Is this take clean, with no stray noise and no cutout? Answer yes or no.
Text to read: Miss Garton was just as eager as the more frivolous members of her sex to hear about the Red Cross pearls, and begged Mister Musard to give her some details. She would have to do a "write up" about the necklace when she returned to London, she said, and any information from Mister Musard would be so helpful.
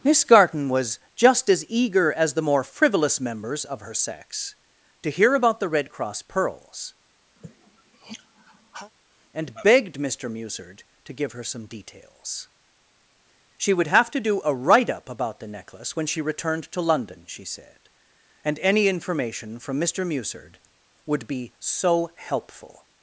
no